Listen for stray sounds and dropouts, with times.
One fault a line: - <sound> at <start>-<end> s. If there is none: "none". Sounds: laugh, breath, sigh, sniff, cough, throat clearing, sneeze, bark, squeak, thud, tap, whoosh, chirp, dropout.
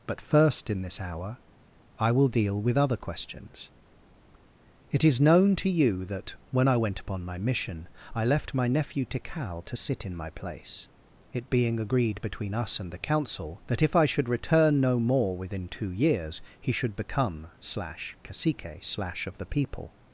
none